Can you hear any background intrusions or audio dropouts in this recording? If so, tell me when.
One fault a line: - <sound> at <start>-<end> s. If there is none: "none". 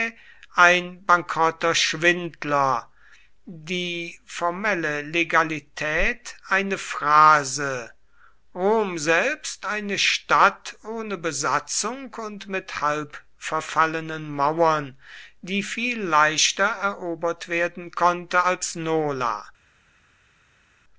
none